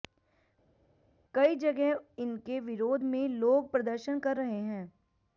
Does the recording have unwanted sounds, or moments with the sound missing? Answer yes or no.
no